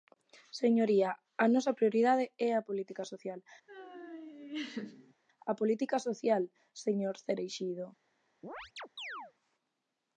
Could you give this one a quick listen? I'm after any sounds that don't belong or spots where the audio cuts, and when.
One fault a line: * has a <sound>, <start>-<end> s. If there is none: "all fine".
* has a laugh, 3.7-5.1 s
* has a chirp, 8.4-9.3 s